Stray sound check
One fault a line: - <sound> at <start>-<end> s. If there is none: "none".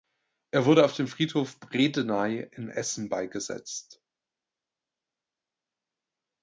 none